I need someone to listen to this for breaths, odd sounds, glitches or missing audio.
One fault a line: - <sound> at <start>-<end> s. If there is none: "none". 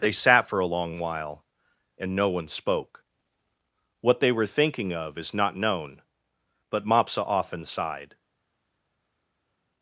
none